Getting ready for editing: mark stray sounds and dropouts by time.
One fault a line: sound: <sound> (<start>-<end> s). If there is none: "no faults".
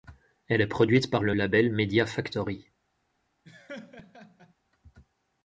sound: laugh (3.4-4.5 s)